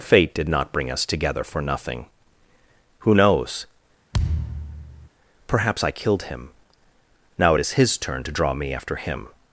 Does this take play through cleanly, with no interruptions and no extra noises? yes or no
no